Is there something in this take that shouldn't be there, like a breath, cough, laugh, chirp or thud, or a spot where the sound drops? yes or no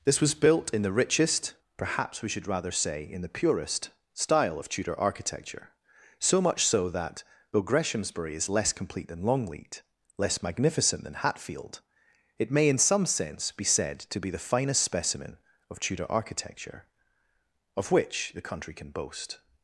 no